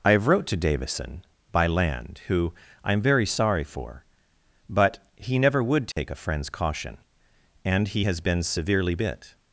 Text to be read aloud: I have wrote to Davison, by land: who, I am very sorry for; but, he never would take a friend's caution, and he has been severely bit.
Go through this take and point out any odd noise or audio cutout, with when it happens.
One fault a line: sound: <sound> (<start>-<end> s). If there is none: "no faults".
sound: dropout (5.9-6.0 s)